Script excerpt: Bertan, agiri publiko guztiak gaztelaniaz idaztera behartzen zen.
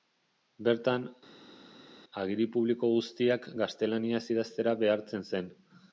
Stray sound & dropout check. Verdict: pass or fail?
pass